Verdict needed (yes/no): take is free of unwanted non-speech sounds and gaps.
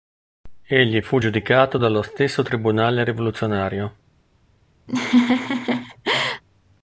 no